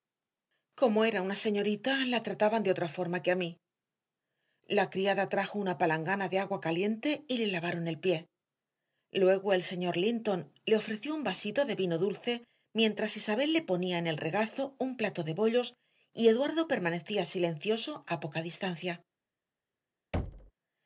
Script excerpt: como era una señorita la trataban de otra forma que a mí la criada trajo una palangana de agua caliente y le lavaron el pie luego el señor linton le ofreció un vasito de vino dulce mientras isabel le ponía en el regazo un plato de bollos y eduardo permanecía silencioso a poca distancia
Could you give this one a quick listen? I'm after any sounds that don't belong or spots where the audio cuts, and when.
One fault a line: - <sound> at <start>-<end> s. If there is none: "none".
- thud at 20.1-20.5 s